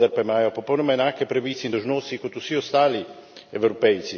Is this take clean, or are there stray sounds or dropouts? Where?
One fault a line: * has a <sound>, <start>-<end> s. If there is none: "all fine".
all fine